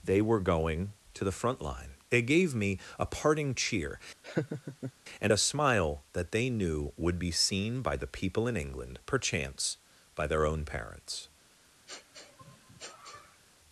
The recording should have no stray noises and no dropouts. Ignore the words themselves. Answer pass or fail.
fail